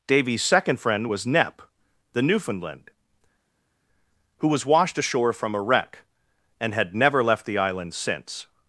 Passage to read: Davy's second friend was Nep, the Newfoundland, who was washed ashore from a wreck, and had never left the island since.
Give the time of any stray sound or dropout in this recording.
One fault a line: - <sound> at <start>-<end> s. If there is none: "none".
none